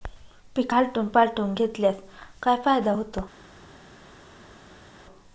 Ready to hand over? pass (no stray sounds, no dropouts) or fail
pass